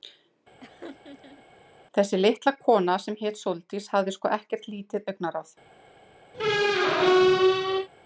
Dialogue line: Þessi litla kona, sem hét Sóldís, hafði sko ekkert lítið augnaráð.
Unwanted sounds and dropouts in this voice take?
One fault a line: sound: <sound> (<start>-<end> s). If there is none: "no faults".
sound: laugh (0.6-1.5 s)
sound: squeak (6.3-7.9 s)